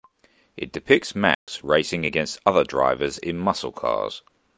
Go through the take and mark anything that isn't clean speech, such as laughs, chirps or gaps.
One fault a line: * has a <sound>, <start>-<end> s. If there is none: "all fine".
* has a dropout, 1.3-1.5 s